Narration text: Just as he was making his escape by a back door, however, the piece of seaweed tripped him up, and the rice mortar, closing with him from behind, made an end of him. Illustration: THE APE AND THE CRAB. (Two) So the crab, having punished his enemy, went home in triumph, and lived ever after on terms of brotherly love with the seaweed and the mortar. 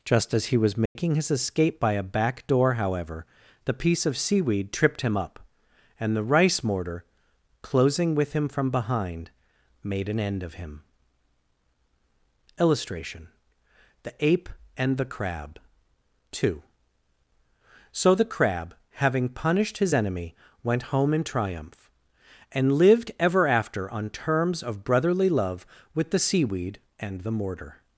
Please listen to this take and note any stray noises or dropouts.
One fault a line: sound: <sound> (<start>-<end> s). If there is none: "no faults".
sound: dropout (0.9-1.0 s)